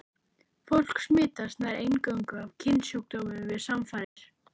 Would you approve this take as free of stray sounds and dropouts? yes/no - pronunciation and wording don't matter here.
no